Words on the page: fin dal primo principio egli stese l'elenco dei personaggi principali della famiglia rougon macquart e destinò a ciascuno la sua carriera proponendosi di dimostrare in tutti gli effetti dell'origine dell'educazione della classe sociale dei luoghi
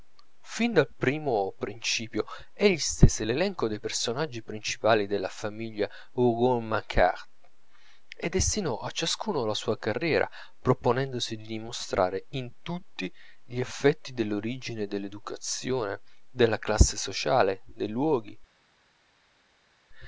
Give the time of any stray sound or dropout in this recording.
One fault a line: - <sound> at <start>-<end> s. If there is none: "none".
none